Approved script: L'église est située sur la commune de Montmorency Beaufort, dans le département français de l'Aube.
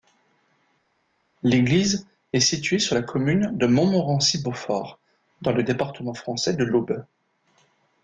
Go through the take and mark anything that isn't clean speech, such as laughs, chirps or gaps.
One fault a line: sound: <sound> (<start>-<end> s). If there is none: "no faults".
no faults